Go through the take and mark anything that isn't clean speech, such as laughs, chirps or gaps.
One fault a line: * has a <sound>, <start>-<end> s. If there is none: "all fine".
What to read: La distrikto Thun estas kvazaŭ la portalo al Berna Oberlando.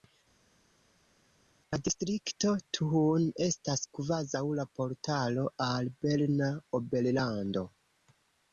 all fine